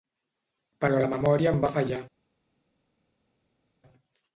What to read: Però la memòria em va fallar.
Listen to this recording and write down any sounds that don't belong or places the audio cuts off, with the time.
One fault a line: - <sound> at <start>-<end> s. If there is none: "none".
none